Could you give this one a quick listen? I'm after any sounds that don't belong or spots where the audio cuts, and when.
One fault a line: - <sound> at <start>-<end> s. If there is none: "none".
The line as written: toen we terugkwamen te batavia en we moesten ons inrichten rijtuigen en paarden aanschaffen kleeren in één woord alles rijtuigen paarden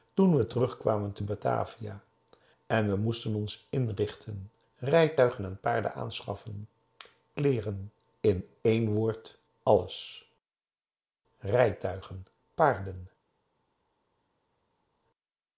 none